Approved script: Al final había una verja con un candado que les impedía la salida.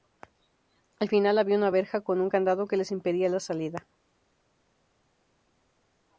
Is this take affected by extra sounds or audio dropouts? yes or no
no